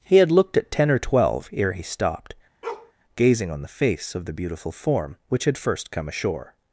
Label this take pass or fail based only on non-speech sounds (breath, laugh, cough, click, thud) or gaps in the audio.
fail